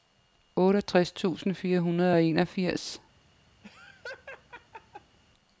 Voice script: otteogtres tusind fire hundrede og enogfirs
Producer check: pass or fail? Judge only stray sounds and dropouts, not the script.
fail